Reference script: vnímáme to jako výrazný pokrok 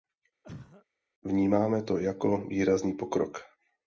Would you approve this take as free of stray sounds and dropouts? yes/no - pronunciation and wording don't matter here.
no